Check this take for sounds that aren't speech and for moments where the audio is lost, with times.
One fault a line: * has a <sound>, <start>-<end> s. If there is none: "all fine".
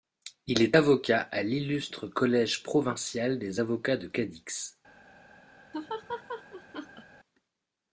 * has a laugh, 5.7-7.0 s